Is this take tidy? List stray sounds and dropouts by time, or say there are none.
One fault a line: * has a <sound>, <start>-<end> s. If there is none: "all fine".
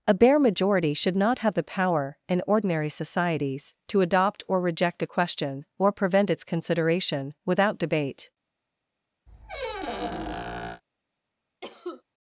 * has a squeak, 9.3-10.8 s
* has a cough, 11.6-12.0 s